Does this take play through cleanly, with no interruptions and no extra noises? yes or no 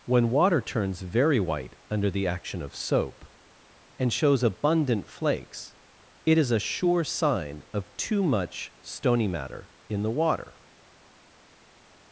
yes